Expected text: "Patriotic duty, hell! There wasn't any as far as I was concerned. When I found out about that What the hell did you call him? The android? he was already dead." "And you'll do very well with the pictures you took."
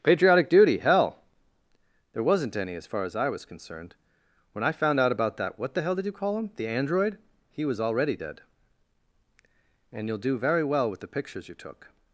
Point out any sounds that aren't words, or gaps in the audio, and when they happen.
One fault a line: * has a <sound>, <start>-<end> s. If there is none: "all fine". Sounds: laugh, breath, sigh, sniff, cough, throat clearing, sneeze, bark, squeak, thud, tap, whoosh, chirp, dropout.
all fine